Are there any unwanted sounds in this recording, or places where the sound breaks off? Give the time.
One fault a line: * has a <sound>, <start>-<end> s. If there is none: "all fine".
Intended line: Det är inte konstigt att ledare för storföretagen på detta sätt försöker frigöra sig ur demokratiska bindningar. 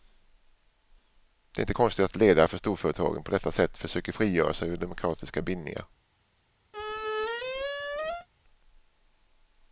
* has a squeak, 6.7-8.3 s